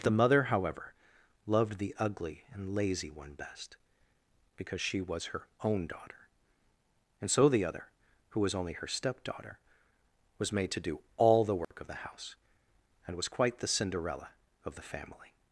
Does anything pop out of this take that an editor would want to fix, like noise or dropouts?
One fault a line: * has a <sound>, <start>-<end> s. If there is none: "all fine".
* has a dropout, 11.6-11.7 s